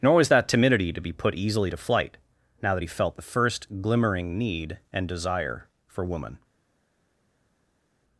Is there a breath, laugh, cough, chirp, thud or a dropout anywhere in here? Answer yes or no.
no